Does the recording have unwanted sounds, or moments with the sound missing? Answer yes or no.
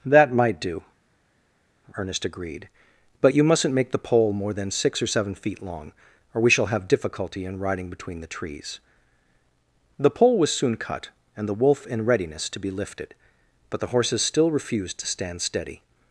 no